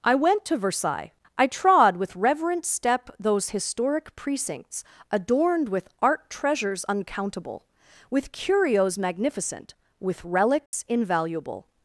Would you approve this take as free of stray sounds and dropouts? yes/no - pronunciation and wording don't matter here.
no